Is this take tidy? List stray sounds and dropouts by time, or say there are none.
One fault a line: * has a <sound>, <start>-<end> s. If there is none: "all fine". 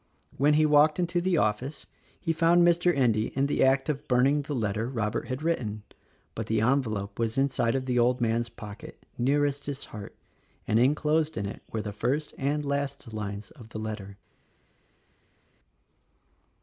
all fine